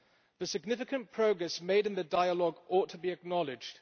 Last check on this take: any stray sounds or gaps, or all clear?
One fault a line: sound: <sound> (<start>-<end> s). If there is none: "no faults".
no faults